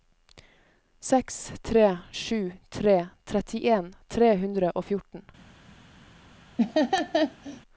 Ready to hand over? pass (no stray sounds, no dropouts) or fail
fail